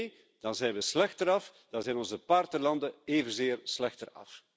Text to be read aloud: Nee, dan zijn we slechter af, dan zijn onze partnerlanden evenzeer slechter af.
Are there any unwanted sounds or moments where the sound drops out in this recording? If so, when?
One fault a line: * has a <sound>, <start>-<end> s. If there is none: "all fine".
all fine